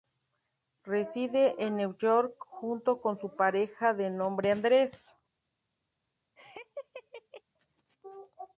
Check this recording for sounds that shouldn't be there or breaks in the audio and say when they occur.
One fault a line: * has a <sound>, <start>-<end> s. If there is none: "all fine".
* has a laugh, 6.4-7.4 s